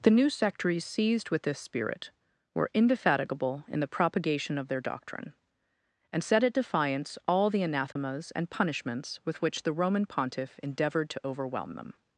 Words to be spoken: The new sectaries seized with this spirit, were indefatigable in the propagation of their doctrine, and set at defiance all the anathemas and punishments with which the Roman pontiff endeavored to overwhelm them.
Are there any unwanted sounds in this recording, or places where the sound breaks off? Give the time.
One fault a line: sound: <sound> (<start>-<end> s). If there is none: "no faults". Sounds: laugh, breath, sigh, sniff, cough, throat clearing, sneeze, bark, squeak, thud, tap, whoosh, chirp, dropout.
sound: dropout (7.9-8.0 s)